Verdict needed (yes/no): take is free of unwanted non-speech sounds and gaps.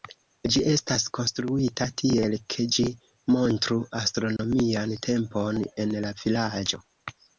no